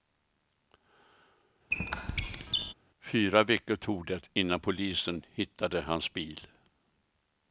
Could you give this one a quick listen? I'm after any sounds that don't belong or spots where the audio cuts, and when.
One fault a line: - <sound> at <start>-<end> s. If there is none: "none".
- squeak at 1.7-2.7 s